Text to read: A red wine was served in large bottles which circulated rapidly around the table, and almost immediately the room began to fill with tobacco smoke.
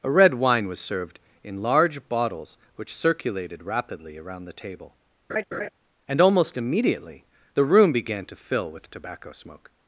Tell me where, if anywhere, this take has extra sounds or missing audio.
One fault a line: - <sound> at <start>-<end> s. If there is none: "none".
- laugh at 5.3-5.7 s